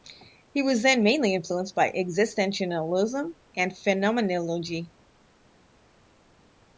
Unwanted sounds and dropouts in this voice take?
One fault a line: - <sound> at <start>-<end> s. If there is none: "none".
none